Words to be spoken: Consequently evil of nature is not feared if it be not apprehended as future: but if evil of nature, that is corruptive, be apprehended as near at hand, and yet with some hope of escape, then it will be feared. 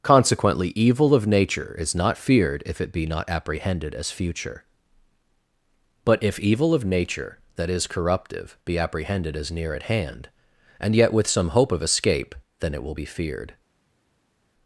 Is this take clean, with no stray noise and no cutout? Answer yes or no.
yes